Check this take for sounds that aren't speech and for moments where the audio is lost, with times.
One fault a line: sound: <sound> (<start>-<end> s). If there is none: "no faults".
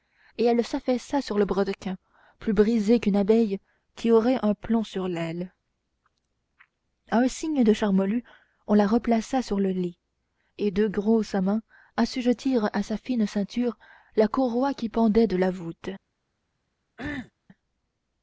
sound: cough (17.0-17.3 s)